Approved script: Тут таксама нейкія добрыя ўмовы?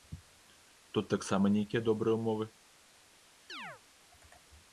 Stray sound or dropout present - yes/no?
yes